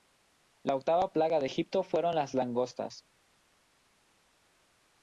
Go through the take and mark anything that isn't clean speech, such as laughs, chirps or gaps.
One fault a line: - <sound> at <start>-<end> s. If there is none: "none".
none